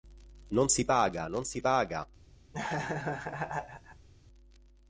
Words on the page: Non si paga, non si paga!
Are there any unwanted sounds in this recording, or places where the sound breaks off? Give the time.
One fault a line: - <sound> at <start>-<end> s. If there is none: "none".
- laugh at 2.5-4.1 s